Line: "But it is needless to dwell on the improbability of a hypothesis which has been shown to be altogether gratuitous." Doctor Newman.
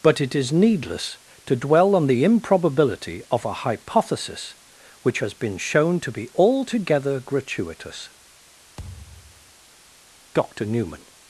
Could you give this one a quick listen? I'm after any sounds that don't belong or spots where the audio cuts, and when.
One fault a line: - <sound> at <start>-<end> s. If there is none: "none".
- thud at 8.8-9.6 s